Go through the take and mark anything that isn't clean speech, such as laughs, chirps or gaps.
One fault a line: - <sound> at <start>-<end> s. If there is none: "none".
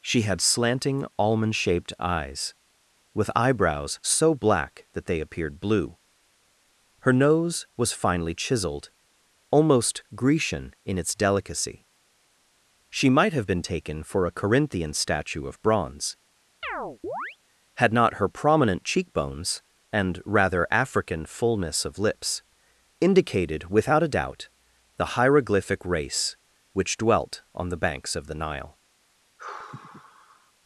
- chirp at 16.6-17.4 s
- sigh at 29.4-30.5 s